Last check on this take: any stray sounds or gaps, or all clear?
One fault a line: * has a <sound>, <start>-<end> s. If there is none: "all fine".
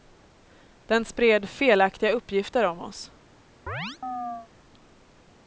* has a chirp, 3.7-4.5 s